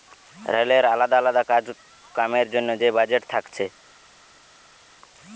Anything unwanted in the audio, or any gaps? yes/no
no